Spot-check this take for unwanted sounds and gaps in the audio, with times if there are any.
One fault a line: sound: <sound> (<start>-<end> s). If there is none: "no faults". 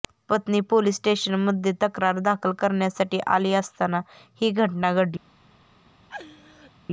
sound: laugh (6.1-6.7 s)